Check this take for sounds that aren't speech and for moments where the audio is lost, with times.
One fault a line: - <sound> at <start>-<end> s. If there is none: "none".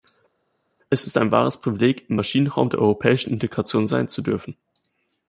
none